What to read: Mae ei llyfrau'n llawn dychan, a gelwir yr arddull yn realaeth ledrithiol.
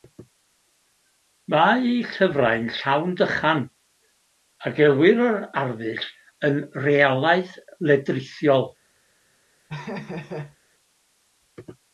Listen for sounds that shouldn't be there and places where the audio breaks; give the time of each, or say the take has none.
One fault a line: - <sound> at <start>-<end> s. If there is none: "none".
- laugh at 9.7-10.6 s